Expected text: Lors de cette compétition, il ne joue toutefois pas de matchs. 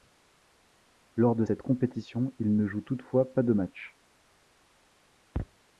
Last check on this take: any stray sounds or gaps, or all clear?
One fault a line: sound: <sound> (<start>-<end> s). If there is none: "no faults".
no faults